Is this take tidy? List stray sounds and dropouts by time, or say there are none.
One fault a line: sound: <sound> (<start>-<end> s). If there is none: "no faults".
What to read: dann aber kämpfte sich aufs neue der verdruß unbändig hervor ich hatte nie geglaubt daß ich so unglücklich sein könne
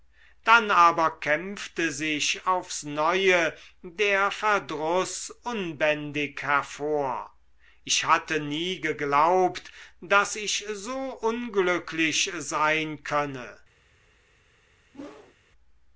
sound: whoosh (14.9-15.3 s)